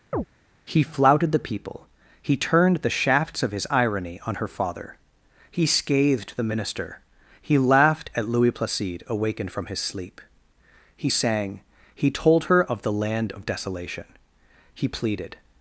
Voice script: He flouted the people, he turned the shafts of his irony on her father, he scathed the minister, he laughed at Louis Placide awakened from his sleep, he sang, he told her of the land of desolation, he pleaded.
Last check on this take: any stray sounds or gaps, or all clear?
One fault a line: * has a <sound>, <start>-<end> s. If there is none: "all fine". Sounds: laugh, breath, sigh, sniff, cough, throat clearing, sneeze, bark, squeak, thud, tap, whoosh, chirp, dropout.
* has a chirp, 0.1-0.3 s